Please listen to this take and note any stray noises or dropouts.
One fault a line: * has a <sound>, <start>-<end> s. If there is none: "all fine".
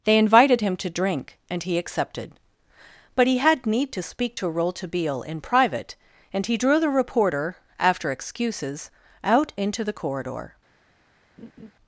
* has a laugh, 11.4-11.7 s